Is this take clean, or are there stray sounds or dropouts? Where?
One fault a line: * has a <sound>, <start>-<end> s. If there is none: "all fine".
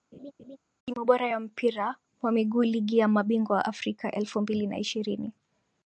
* has a laugh, 0.1-0.6 s